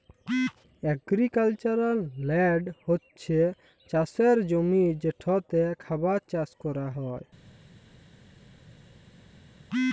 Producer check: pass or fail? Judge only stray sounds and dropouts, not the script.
pass